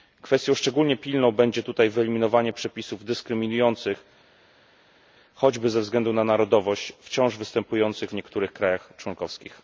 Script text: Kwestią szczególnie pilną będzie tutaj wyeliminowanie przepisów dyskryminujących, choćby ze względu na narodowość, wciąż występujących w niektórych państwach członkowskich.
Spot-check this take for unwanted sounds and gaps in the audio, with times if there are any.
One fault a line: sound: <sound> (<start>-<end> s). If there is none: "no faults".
no faults